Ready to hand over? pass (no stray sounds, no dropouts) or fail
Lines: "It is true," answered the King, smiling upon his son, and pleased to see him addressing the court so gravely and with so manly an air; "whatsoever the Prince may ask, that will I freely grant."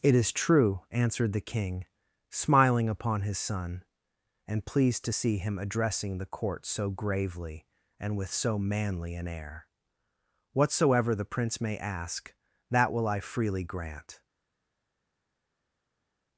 pass